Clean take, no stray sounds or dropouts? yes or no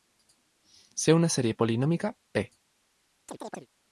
no